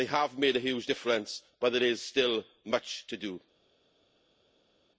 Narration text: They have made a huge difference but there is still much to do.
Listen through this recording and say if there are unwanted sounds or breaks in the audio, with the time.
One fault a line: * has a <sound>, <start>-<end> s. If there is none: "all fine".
all fine